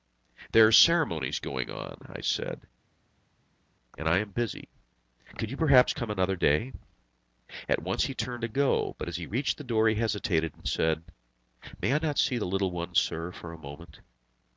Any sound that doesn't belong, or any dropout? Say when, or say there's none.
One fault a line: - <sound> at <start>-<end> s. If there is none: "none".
none